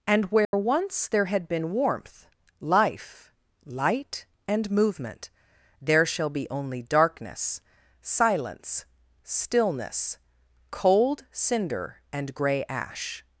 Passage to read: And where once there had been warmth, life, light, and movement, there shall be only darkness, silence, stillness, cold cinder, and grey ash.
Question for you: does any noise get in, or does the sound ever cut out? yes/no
yes